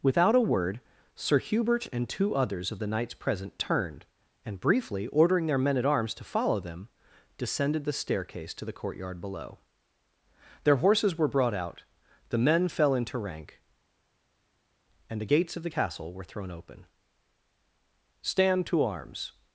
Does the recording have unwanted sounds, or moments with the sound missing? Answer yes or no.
no